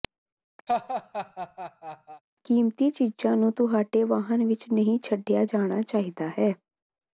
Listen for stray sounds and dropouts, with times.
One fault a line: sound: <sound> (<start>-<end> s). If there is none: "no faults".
sound: laugh (0.7-2.2 s)